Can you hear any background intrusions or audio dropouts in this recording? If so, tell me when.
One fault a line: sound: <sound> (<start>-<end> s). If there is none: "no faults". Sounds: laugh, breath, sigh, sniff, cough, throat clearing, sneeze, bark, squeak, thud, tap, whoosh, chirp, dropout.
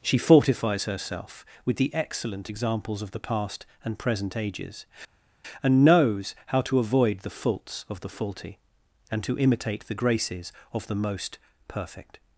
no faults